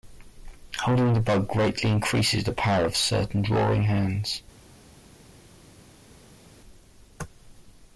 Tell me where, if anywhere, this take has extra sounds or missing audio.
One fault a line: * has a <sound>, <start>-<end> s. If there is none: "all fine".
all fine